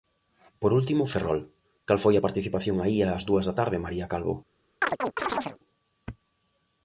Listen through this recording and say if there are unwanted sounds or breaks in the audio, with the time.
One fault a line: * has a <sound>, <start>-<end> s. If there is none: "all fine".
* has a chirp, 4.8-5.6 s